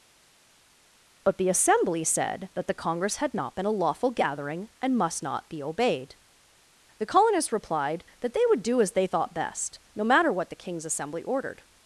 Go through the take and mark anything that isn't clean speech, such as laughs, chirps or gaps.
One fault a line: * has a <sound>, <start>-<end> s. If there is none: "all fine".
all fine